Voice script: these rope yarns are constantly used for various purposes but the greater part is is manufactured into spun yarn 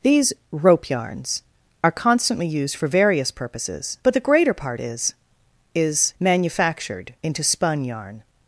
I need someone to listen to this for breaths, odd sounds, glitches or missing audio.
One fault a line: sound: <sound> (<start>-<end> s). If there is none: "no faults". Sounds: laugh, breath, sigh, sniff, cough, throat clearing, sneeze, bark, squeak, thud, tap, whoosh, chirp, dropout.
no faults